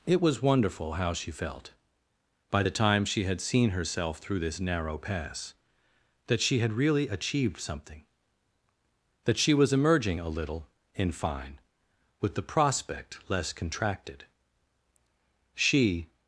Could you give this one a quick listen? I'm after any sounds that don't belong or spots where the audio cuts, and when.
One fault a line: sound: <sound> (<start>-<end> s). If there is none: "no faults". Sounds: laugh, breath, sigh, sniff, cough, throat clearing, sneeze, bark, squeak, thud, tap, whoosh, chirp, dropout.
no faults